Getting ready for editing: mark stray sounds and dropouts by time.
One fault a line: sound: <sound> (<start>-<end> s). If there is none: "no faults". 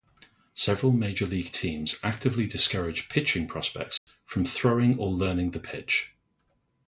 sound: dropout (4.0-4.1 s)